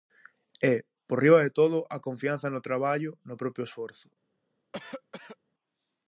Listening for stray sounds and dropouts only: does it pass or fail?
fail